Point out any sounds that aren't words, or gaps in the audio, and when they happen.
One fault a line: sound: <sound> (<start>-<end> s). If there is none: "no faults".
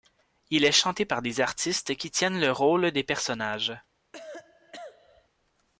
sound: cough (4.1-5.3 s)